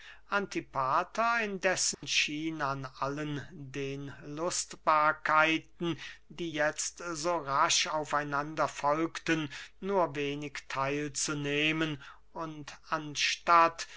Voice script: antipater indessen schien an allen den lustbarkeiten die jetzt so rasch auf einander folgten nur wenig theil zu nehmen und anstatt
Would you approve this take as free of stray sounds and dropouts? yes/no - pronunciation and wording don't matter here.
no